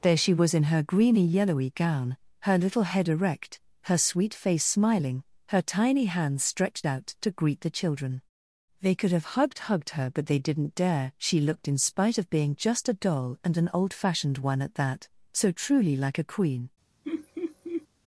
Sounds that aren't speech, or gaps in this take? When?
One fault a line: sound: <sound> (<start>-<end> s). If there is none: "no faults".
sound: laugh (17.0-17.9 s)